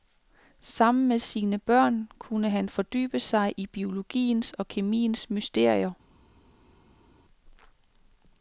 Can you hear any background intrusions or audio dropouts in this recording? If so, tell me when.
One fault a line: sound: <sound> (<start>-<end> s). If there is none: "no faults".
no faults